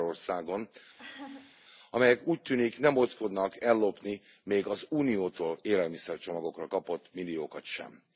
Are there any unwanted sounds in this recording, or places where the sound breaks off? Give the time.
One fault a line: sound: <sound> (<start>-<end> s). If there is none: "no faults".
sound: laugh (1.0-1.6 s)